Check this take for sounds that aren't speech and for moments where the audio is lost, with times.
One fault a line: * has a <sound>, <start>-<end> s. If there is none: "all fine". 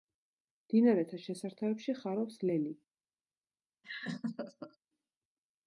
* has a laugh, 3.8-4.8 s